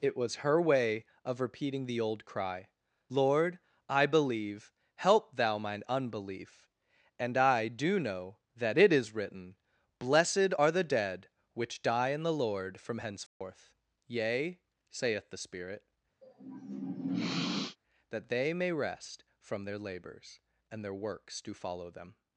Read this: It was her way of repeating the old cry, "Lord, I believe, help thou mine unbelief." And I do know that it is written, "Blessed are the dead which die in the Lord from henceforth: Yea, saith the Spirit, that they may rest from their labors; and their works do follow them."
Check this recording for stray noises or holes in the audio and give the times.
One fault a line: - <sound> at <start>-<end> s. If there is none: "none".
- dropout at 13.3-13.4 s
- sniff at 16.2-17.8 s